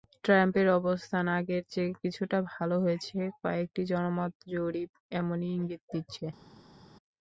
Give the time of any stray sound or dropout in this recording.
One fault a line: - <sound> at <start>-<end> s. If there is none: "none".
none